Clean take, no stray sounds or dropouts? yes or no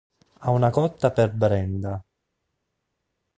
yes